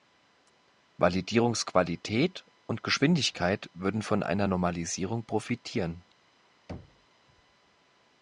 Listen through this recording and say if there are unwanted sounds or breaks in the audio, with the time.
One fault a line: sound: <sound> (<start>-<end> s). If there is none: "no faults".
sound: thud (6.7-7.1 s)